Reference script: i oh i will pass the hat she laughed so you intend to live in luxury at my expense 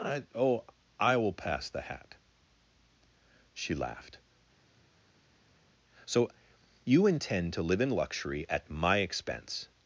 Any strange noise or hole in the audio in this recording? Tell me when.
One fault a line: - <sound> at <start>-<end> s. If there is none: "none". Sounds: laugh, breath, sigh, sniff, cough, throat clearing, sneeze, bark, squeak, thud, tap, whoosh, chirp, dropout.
none